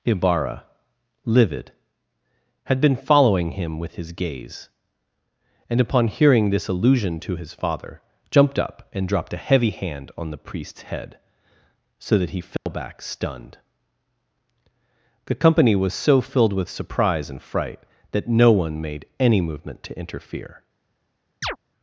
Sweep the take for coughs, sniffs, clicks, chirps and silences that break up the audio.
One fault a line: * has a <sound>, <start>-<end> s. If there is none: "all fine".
* has a dropout, 12.6-12.7 s
* has a chirp, 21.4-21.6 s